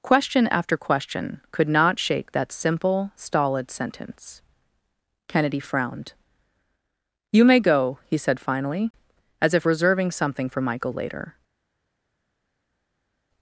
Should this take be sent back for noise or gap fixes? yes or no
no